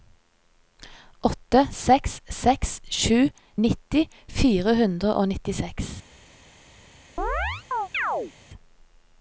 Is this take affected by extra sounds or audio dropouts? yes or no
yes